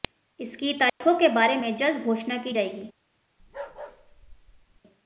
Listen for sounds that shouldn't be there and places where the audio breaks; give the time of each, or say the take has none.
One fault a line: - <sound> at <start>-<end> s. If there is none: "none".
- dropout at 0.9-1.0 s
- bark at 3.4-4.8 s